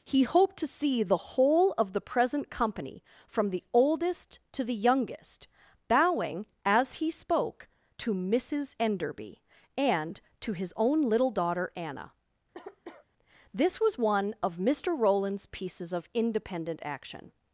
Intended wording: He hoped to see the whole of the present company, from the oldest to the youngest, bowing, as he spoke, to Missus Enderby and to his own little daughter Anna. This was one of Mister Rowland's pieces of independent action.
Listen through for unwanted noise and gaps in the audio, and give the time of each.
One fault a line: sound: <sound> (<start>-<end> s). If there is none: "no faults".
sound: cough (12.5-13.1 s)